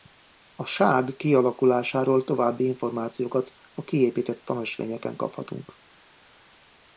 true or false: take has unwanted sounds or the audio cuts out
false